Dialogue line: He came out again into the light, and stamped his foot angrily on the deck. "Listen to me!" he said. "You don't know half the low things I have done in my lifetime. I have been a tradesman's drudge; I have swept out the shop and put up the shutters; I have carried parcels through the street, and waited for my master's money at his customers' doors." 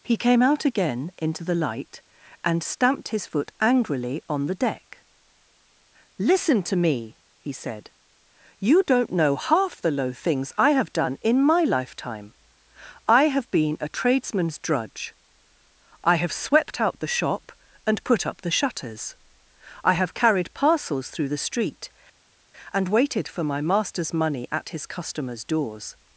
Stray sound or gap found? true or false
false